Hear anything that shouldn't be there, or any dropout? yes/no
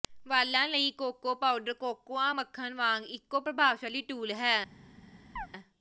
yes